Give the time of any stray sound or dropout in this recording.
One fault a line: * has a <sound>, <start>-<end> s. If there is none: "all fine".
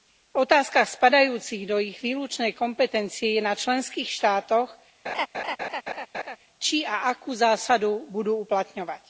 * has a laugh, 5.1-6.4 s